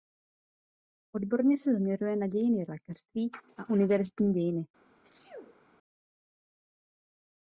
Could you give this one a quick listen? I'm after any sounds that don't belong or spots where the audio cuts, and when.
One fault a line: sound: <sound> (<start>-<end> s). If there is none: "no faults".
sound: sneeze (5.0-5.7 s)